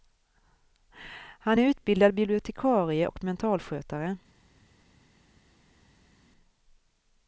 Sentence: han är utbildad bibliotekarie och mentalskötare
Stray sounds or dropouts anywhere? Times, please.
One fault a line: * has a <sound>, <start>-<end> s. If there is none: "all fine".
all fine